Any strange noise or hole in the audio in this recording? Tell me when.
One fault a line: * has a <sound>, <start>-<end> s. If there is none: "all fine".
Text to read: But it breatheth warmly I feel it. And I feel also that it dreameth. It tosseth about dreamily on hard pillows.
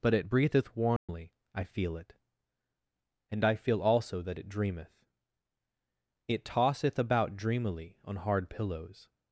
* has a dropout, 1.0-1.1 s